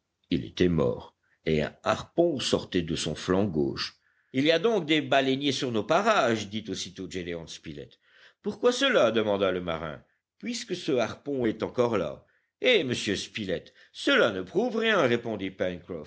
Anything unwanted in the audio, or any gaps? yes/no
no